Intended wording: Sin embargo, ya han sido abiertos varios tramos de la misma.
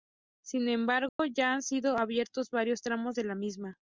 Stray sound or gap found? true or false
true